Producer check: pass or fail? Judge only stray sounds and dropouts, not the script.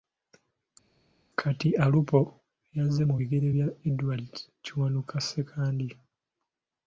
pass